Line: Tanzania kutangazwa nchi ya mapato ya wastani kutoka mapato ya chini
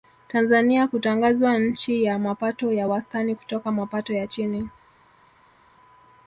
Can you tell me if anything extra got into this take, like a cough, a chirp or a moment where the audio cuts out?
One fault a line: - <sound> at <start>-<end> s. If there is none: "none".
none